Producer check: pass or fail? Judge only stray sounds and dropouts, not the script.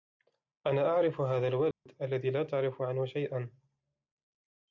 fail